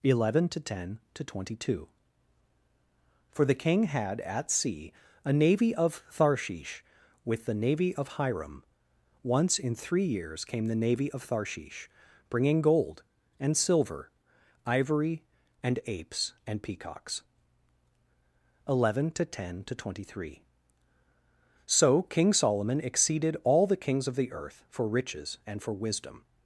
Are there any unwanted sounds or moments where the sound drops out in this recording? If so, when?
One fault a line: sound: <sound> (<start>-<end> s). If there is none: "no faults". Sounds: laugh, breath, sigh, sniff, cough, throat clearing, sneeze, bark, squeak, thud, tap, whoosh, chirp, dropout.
no faults